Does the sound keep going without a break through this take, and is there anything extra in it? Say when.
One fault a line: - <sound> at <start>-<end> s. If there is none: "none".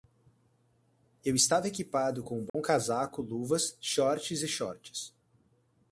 - dropout at 2.5-2.5 s